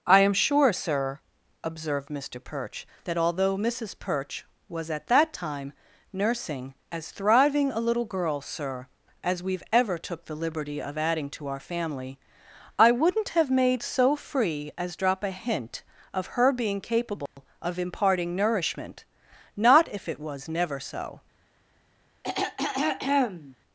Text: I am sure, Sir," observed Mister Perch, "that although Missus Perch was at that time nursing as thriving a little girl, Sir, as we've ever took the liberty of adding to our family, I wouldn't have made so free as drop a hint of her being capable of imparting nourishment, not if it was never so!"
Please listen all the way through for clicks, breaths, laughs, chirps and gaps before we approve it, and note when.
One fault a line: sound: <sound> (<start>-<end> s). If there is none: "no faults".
sound: dropout (17.3-17.4 s)
sound: throat clearing (22.2-23.6 s)